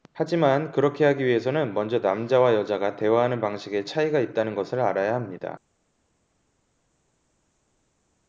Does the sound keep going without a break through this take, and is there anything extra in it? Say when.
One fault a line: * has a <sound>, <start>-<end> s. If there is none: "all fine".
all fine